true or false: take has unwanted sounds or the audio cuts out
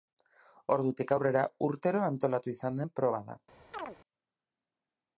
true